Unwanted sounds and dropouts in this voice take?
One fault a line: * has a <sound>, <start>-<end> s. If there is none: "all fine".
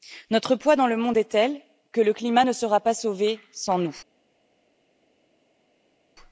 all fine